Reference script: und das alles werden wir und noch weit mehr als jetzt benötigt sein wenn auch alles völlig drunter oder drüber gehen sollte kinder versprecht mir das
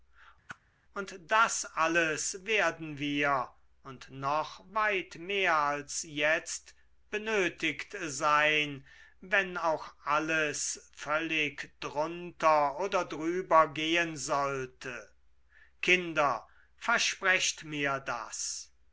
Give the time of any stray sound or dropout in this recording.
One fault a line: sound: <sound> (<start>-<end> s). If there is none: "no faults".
sound: whoosh (0.5-0.6 s)